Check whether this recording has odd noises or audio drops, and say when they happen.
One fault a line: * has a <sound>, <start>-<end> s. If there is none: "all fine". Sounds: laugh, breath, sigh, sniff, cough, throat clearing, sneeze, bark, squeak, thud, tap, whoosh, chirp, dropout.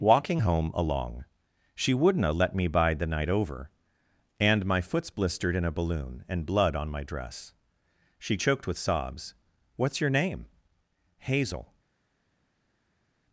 all fine